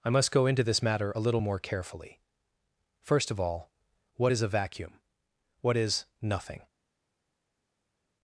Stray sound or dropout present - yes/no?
no